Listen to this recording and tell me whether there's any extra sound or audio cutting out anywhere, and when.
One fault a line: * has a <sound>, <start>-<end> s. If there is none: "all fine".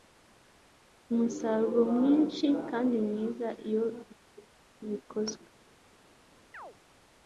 * has a chirp, 6.5-6.8 s